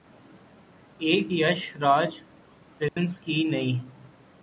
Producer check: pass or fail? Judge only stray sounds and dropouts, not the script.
fail